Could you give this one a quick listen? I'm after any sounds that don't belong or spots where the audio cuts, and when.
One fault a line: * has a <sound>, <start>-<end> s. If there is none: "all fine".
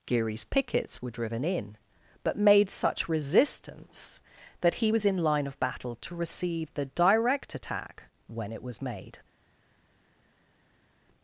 all fine